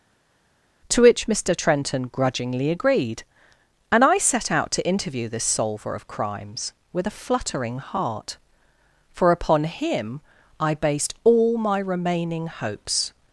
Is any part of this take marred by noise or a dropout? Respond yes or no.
no